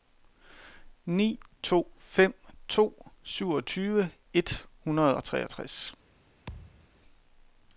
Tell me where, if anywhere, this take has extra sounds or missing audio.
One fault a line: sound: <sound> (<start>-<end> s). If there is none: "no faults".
sound: thud (6.5-6.9 s)